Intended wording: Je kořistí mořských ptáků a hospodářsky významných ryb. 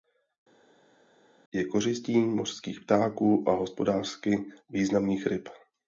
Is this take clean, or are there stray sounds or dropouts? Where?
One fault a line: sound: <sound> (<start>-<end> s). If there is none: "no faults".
no faults